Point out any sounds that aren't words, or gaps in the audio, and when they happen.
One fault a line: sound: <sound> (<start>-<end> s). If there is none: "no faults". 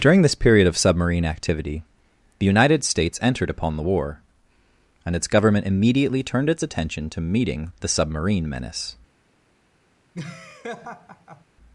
sound: laugh (10.1-11.4 s)